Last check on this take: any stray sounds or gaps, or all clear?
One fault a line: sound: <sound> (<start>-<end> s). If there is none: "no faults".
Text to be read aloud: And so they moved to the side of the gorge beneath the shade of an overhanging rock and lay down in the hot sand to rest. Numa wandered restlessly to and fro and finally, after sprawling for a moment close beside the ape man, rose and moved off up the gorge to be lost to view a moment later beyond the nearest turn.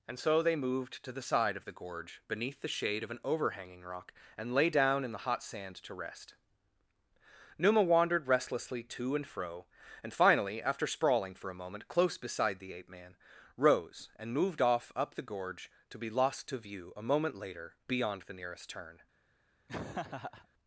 sound: laugh (19.7-20.5 s)